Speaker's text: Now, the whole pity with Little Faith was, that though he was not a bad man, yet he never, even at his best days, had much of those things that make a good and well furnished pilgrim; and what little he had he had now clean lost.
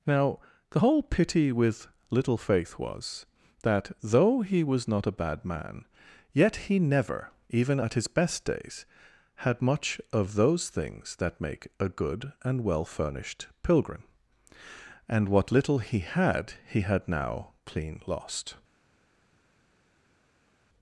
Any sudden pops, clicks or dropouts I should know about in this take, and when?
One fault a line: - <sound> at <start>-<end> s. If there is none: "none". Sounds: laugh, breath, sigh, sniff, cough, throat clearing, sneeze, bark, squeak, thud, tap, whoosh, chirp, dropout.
none